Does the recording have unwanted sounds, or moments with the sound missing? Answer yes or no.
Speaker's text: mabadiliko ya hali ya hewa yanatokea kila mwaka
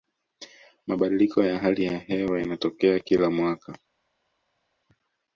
no